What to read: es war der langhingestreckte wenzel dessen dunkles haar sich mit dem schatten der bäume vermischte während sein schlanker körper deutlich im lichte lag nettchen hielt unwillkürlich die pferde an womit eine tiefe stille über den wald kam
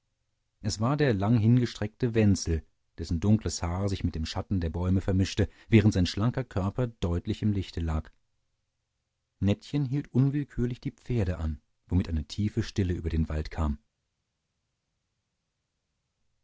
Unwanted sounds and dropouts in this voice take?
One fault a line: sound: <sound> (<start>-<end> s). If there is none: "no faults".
no faults